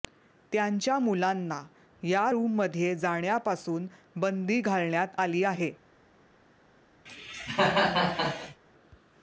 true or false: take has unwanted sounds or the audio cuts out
true